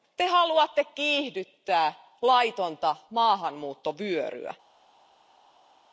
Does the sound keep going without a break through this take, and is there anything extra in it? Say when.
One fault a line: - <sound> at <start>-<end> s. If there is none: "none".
none